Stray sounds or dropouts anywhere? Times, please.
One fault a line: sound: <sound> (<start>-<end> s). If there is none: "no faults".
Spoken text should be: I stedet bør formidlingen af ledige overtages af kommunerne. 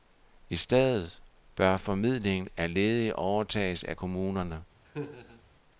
sound: laugh (4.8-5.4 s)